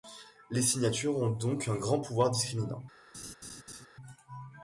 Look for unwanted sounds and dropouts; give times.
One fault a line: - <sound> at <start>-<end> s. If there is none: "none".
- laugh at 3.1-3.9 s